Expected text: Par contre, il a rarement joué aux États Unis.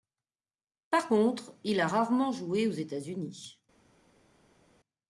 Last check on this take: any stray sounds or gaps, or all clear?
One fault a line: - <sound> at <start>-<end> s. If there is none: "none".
none